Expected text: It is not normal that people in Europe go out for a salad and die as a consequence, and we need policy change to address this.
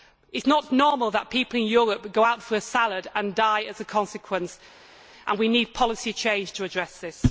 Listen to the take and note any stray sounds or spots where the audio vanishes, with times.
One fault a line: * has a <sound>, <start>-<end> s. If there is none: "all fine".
all fine